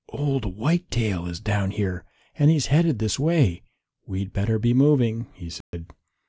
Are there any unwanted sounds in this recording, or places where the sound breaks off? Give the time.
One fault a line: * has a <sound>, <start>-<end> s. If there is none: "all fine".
* has a dropout, 5.6-5.7 s